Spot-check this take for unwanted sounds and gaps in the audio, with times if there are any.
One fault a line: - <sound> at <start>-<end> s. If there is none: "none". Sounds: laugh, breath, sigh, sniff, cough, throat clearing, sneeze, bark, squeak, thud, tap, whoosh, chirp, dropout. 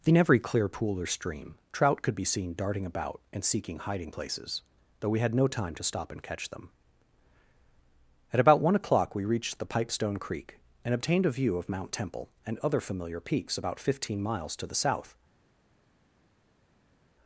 none